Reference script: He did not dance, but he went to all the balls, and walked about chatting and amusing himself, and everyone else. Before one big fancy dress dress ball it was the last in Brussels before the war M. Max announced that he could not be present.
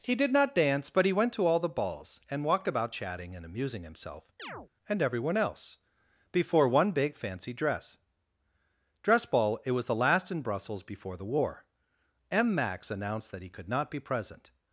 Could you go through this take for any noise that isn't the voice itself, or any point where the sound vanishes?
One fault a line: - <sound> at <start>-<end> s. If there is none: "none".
- chirp at 4.4-4.7 s